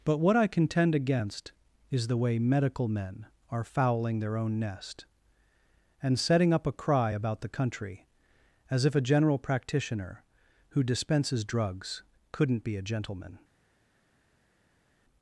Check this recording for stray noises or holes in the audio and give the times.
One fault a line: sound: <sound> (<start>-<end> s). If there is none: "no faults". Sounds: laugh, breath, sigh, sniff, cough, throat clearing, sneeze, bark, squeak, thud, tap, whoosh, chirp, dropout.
no faults